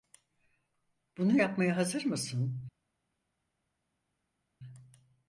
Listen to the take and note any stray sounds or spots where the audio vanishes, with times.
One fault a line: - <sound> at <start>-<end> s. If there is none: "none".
none